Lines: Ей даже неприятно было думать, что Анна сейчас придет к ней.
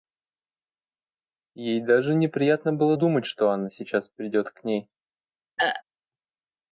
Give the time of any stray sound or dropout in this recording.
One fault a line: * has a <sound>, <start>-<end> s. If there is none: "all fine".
* has a throat clearing, 5.6-5.8 s